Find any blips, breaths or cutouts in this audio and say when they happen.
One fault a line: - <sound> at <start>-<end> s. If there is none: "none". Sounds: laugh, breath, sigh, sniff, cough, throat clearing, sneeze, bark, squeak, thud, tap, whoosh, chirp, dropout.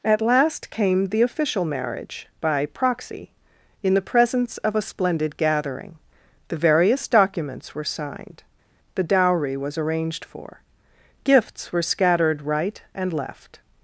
none